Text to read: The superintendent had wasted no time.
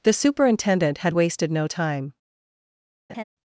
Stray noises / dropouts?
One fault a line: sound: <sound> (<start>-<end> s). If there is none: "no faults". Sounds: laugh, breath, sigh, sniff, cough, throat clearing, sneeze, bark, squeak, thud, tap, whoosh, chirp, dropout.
sound: laugh (3.1-3.2 s)